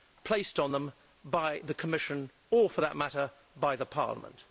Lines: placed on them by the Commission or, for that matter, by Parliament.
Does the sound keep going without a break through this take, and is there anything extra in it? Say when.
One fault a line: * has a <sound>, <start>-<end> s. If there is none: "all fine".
all fine